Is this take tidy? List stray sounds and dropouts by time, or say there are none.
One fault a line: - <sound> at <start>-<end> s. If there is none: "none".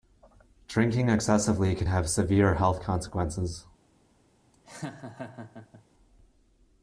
- laugh at 4.5-5.8 s